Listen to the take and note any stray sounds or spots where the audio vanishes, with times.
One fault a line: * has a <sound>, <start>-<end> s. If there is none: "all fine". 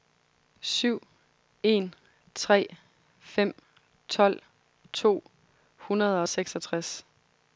all fine